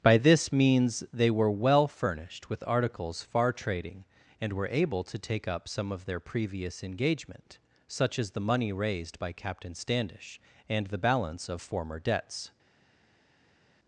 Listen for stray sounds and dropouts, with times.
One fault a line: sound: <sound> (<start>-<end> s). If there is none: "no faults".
no faults